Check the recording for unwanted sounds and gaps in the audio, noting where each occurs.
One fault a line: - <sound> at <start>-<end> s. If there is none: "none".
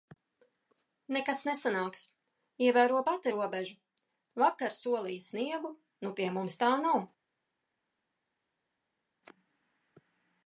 none